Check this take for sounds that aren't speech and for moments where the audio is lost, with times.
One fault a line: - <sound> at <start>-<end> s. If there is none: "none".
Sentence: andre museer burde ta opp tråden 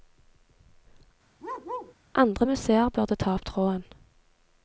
- bark at 1.4-1.9 s